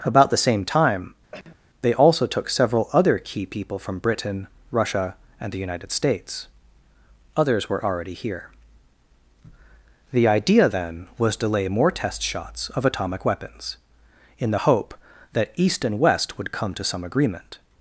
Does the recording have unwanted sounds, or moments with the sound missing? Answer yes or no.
yes